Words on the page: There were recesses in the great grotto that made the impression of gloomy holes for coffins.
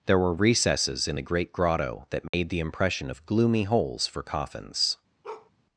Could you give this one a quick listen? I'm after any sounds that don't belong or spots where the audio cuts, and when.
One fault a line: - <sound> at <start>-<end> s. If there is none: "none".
- dropout at 2.3-2.3 s
- bark at 5.2-5.5 s